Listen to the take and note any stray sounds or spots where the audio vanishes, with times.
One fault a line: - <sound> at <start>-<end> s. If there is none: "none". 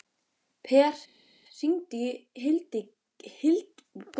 none